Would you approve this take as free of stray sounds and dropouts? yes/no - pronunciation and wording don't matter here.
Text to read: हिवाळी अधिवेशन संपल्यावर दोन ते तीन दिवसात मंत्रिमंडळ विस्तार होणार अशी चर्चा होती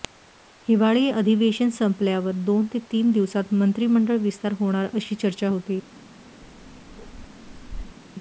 no